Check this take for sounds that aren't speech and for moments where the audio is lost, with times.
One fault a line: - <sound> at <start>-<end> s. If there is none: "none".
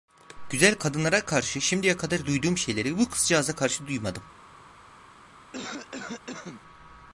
- cough at 5.5-6.6 s